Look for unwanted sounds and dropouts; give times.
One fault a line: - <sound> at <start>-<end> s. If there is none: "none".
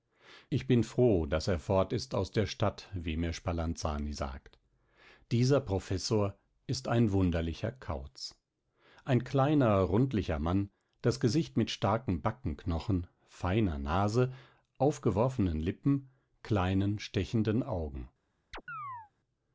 - chirp at 18.5-19.1 s